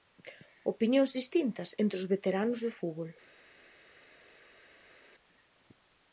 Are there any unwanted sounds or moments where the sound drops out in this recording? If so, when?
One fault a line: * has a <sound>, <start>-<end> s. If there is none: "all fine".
all fine